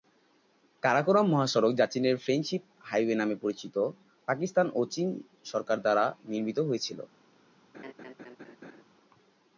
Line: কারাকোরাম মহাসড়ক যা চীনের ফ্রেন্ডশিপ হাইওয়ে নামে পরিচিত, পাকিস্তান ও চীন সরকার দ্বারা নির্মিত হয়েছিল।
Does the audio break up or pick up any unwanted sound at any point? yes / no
yes